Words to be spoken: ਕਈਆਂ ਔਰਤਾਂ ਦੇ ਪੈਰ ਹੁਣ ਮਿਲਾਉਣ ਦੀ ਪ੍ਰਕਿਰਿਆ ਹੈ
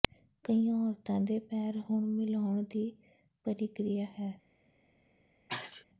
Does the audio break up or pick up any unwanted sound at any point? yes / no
yes